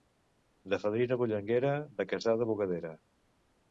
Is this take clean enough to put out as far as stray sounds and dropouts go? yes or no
yes